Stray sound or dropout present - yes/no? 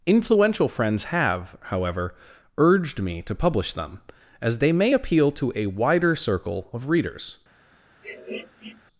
yes